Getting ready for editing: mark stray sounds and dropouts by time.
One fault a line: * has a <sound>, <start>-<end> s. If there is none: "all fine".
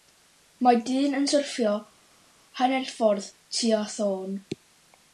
all fine